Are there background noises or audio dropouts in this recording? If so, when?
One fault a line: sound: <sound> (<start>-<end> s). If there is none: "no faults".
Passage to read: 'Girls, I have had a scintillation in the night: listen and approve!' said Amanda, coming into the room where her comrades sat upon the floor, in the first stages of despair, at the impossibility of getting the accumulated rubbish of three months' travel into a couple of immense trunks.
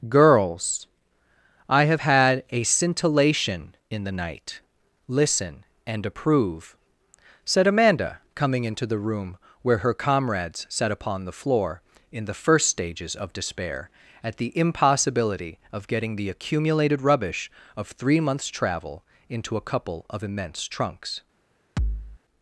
sound: thud (21.8-22.2 s)